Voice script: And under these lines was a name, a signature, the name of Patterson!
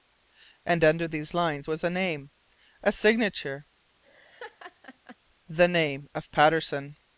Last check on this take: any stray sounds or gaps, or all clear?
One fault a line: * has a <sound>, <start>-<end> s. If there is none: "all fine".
* has a laugh, 4.0-5.2 s